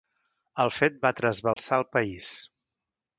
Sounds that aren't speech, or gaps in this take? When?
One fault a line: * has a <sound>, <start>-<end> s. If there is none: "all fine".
* has a dropout, 1.5-1.6 s